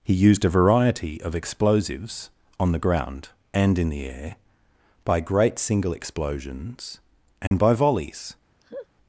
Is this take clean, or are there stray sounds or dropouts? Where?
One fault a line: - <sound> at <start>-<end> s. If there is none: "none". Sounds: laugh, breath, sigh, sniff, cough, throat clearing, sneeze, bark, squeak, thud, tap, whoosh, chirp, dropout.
- dropout at 7.5-7.5 s
- laugh at 8.6-8.9 s